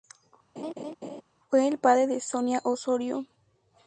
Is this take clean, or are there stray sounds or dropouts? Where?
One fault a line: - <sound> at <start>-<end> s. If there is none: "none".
- laugh at 0.6-1.2 s